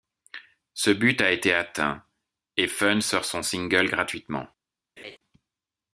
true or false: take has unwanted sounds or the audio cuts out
true